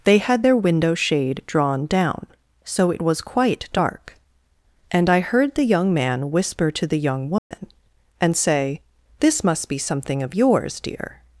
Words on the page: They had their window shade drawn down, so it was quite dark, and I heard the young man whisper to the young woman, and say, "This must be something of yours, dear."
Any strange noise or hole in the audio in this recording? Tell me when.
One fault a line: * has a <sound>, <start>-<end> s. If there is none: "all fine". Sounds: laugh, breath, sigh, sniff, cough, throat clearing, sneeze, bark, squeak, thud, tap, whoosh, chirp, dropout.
* has a dropout, 7.4-7.5 s